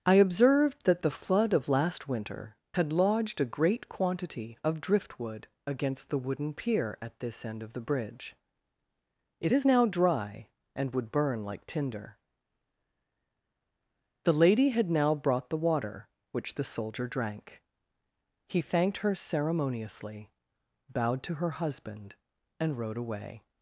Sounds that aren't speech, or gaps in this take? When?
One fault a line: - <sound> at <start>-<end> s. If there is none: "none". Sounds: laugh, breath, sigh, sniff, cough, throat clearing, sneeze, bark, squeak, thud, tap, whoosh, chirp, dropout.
none